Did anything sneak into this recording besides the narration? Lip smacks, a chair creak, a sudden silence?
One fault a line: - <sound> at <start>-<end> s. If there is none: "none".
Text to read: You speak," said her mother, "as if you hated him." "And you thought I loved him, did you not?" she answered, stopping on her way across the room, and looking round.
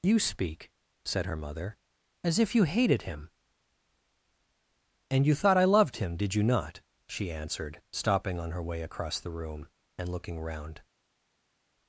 none